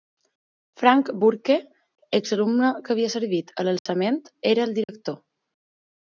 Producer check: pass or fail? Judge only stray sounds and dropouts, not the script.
fail